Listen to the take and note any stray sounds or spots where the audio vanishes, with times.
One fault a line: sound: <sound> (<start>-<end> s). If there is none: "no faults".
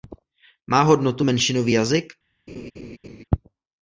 sound: laugh (2.5-3.2 s)